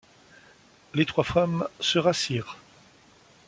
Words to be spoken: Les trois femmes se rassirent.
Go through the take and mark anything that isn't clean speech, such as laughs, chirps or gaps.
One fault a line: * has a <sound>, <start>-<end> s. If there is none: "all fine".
all fine